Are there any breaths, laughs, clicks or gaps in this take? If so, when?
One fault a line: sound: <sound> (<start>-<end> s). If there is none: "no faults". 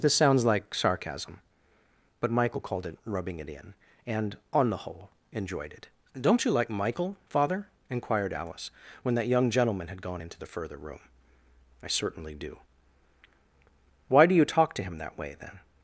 no faults